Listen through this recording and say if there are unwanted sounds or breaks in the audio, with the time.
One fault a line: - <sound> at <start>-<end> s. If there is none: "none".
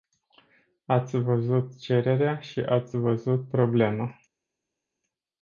none